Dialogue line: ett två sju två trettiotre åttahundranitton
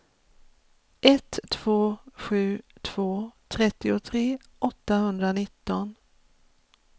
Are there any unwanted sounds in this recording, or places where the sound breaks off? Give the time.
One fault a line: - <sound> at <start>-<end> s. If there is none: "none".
none